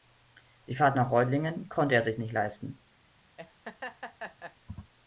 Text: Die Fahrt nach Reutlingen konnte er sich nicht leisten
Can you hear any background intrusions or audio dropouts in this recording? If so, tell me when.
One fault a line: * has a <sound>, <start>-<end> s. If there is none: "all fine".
* has a laugh, 3.4-4.6 s